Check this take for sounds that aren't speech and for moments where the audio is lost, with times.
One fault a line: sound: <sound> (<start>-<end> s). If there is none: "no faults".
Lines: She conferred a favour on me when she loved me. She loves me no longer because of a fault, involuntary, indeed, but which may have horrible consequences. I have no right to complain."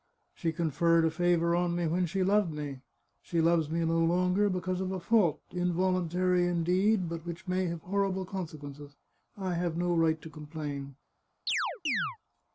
sound: chirp (11.5-12.2 s)